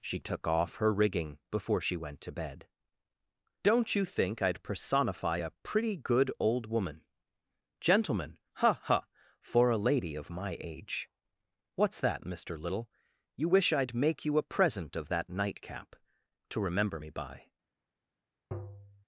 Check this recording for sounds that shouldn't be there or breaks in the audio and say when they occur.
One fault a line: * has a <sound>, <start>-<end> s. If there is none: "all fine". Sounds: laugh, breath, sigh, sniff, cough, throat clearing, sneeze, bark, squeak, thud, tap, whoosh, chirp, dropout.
* has a tap, 18.5-19.0 s